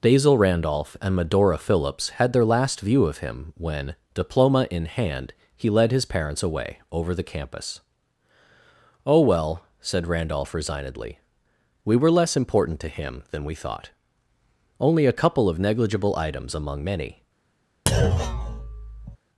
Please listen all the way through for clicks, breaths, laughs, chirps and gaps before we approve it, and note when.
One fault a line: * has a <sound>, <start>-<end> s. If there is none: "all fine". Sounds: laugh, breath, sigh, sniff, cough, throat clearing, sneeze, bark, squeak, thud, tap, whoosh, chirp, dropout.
* has a thud, 17.9-19.2 s